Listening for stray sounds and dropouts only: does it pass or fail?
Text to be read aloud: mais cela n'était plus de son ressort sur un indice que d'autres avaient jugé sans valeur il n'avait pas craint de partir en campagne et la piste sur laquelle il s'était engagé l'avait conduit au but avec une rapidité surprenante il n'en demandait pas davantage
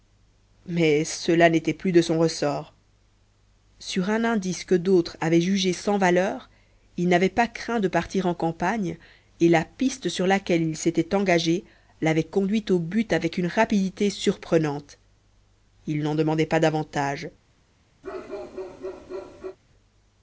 fail